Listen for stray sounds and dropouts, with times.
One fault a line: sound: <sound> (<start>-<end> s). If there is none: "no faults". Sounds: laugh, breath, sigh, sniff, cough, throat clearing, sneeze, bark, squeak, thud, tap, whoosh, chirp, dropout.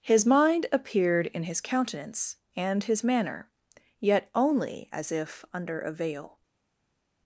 no faults